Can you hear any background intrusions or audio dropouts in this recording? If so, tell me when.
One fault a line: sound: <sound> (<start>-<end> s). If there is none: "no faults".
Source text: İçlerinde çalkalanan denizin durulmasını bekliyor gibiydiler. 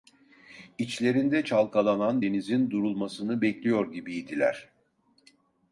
no faults